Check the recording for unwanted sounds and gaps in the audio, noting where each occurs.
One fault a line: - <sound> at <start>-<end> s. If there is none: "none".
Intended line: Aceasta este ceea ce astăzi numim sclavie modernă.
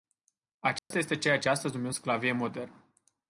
- dropout at 0.8-0.9 s